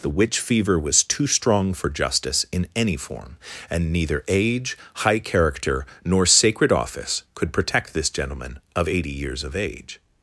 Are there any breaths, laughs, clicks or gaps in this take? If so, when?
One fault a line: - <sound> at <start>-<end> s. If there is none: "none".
none